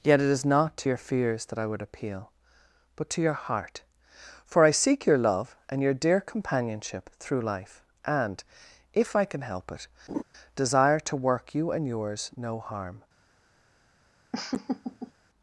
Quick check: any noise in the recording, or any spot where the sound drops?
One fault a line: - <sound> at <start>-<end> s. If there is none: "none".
- laugh at 10.1-10.2 s
- laugh at 14.3-15.1 s